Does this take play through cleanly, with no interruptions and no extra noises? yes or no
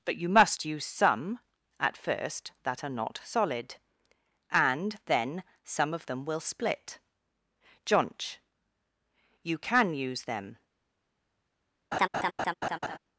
no